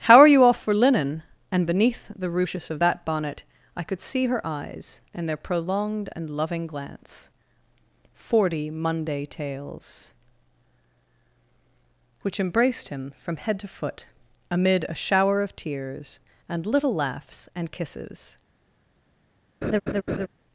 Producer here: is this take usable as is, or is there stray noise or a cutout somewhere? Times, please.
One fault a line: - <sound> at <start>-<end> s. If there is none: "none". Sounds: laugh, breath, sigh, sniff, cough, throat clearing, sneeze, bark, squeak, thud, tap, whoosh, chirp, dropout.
- laugh at 19.6-20.3 s